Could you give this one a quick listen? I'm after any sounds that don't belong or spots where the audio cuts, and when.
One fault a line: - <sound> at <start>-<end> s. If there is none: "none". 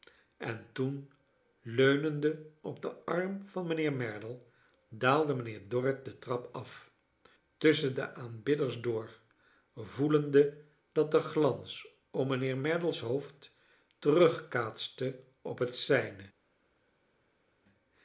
none